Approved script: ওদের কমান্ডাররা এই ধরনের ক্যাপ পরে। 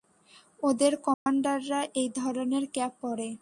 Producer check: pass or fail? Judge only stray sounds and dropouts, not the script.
fail